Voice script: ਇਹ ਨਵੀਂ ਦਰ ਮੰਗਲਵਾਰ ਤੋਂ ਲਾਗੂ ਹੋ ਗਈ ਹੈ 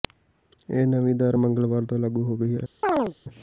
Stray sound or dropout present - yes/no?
yes